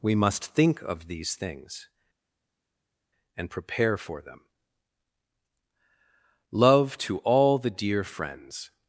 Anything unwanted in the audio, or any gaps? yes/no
no